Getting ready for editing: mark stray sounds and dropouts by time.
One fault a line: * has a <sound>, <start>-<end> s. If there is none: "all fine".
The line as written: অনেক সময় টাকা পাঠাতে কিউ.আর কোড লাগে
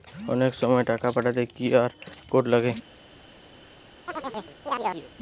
* has a chirp, 4.1-5.1 s